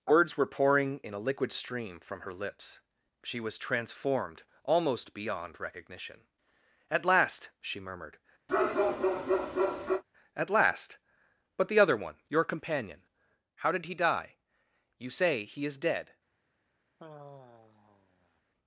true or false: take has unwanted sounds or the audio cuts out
true